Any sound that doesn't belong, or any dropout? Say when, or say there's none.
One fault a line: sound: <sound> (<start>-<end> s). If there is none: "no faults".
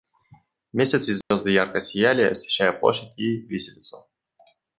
sound: dropout (1.2-1.3 s)